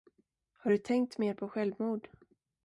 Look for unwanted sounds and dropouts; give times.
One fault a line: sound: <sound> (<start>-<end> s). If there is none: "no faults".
no faults